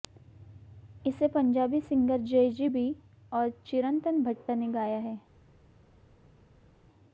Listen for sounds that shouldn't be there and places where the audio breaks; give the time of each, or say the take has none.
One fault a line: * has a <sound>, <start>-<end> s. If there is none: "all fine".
all fine